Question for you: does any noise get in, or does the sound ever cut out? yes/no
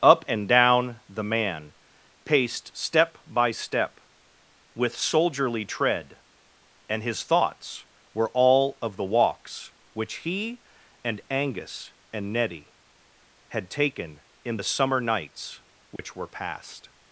yes